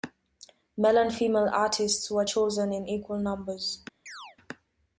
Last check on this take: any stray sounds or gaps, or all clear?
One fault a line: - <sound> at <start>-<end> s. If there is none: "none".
- chirp at 4.1-4.4 s